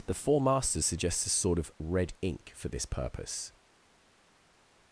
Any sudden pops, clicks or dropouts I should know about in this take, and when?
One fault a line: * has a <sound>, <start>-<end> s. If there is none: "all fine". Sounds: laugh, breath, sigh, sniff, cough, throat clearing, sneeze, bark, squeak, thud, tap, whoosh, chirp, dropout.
all fine